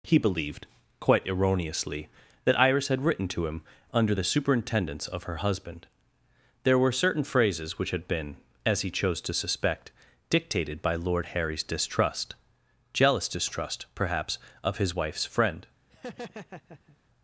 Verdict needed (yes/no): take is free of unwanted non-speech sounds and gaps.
no